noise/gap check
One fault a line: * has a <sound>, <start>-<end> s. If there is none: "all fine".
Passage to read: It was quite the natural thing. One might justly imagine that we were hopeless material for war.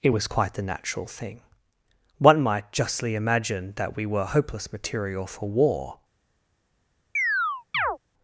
* has a chirp, 7.2-8.0 s